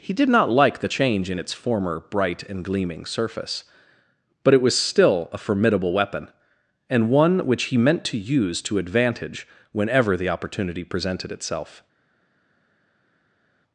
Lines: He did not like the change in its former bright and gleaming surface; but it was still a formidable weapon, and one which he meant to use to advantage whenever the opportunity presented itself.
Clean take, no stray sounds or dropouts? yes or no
yes